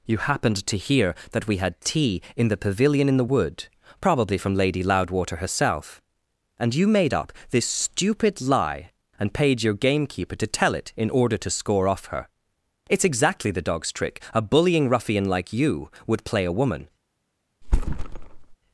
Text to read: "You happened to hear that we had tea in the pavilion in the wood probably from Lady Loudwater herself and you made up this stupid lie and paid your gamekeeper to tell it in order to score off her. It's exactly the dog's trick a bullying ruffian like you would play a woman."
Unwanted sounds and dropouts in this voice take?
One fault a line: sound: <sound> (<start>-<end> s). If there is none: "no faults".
sound: thud (17.6-18.6 s)